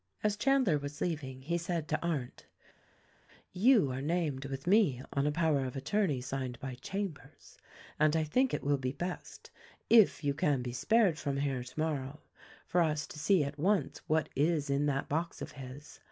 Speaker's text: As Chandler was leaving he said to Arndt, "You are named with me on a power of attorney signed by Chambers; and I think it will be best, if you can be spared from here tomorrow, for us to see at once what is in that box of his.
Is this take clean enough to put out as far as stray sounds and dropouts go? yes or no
yes